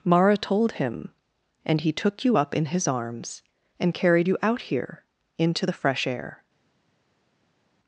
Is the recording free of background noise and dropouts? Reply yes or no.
yes